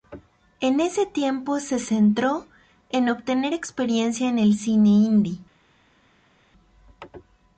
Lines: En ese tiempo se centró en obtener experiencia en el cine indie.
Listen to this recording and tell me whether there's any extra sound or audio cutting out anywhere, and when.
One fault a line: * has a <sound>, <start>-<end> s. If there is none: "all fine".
all fine